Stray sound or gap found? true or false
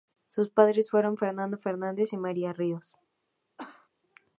true